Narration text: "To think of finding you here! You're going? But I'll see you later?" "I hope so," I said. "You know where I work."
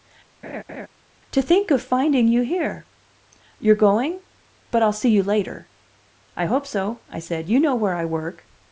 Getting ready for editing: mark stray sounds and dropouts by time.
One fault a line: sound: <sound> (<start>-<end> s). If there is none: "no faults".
sound: laugh (0.4-0.9 s)